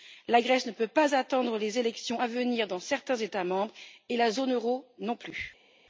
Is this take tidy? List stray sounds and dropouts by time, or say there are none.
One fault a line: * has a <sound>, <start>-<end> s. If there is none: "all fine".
all fine